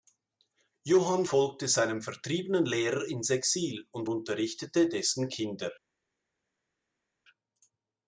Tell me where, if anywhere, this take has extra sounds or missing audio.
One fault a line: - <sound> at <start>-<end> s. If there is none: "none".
none